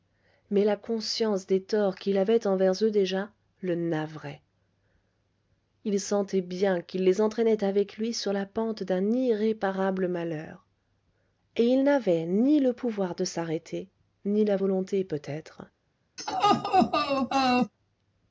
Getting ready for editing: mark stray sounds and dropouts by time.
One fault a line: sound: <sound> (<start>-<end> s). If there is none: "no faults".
sound: laugh (16.2-17.7 s)